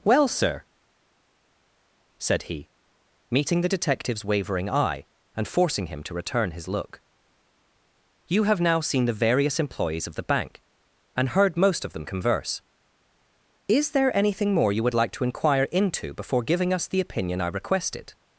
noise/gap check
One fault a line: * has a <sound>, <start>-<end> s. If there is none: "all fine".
all fine